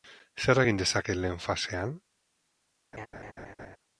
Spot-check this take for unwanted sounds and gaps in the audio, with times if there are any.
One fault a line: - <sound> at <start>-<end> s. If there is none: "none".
- laugh at 2.9-3.8 s